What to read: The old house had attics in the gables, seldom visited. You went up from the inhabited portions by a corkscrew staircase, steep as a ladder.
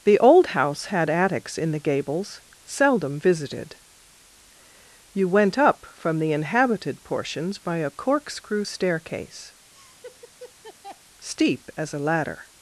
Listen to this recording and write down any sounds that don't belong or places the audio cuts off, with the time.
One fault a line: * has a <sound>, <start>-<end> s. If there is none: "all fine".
* has a laugh, 9.7-11.0 s